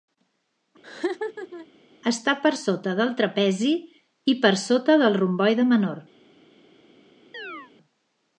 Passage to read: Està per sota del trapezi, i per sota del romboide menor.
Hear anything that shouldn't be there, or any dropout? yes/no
yes